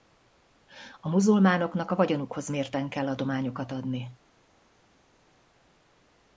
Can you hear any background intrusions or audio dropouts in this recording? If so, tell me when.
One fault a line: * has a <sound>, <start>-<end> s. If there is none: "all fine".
all fine